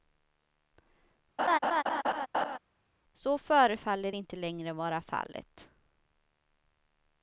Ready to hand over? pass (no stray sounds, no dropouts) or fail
fail